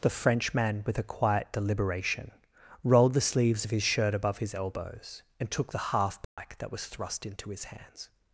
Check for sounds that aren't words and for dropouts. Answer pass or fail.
fail